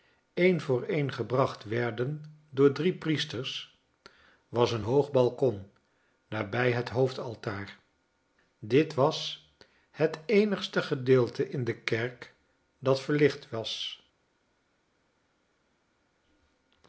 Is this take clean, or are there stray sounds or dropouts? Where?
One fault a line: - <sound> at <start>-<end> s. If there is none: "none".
none